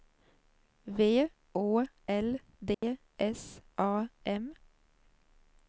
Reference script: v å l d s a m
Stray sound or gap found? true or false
true